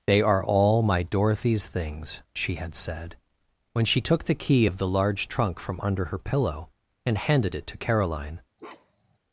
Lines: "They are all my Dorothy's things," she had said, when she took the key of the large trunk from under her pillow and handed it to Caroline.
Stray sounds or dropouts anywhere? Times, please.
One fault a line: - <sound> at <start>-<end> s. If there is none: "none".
- bark at 8.6-9.2 s